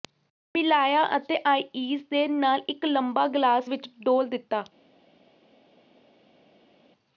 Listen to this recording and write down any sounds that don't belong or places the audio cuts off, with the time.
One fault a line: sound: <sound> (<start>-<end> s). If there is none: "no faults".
no faults